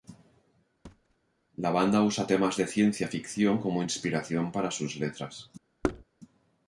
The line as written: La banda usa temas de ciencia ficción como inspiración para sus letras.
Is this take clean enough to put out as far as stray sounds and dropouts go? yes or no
no